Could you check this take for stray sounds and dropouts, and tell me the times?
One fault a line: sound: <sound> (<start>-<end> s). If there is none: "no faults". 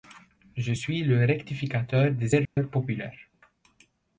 sound: dropout (2.4-2.6 s)